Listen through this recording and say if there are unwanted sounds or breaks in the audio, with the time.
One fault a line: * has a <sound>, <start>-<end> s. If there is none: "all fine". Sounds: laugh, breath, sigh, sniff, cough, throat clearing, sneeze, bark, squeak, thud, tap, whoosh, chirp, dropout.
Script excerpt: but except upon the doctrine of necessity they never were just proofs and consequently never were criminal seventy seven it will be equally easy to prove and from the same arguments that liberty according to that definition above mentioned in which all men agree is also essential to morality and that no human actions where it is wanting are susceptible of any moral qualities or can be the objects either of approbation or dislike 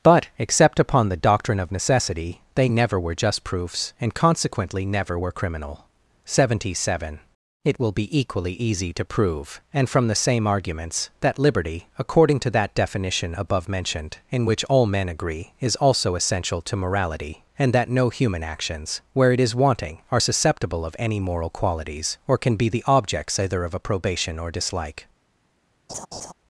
* has a laugh, 25.9-26.3 s